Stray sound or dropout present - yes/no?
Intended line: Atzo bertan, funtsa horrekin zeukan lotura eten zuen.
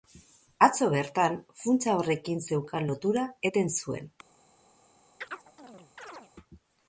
yes